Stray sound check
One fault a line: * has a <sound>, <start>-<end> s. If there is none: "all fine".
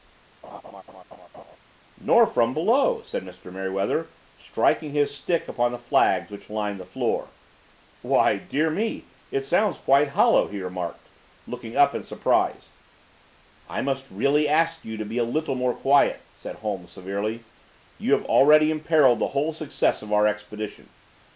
* has a laugh, 0.4-1.6 s